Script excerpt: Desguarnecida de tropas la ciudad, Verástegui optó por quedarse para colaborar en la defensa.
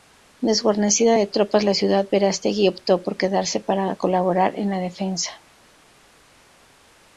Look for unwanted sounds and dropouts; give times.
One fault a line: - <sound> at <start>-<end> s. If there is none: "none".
none